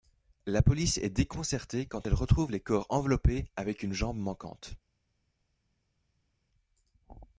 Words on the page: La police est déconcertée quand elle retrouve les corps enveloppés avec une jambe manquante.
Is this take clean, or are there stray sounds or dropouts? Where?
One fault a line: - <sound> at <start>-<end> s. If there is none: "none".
none